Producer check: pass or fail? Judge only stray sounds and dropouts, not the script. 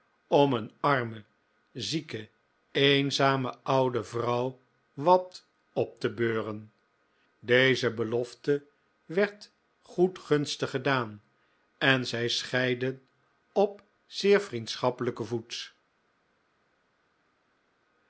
pass